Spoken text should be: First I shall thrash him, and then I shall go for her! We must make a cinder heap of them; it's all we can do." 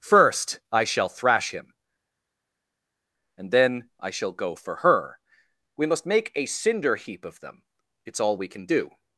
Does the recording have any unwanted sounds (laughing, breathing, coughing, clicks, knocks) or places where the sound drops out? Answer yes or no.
no